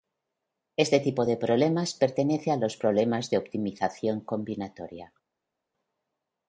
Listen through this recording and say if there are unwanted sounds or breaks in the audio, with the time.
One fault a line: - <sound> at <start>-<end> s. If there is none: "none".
none